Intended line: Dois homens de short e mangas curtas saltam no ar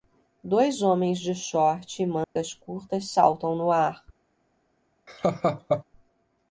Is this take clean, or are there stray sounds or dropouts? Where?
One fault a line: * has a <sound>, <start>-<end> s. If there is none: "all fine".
* has a dropout, 2.2-2.4 s
* has a laugh, 5.1-5.8 s